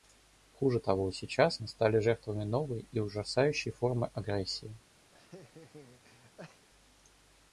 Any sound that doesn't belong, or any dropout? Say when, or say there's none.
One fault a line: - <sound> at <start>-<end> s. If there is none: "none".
- laugh at 5.1-6.7 s